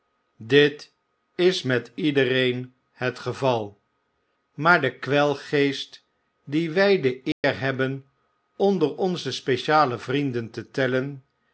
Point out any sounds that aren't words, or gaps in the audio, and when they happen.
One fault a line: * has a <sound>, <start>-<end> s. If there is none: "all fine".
* has a dropout, 7.3-7.4 s